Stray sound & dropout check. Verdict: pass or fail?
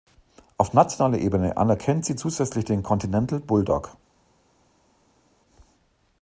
pass